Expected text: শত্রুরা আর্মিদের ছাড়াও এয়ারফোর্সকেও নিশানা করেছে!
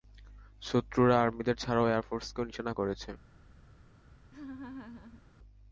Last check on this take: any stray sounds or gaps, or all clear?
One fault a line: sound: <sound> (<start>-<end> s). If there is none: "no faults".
sound: laugh (4.3-5.2 s)